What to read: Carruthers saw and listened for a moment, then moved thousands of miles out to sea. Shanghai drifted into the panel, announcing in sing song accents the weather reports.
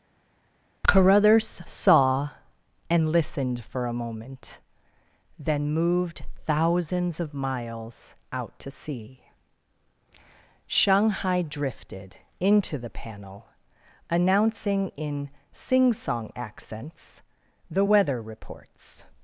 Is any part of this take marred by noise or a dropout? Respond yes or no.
no